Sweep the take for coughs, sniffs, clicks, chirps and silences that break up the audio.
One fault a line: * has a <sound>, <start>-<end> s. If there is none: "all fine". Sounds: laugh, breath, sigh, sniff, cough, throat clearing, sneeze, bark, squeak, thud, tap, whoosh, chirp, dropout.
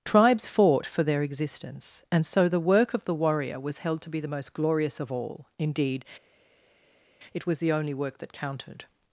all fine